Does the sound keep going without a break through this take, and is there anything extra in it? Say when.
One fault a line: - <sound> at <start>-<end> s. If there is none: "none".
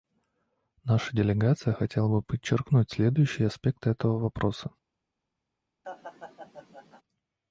- laugh at 5.8-7.0 s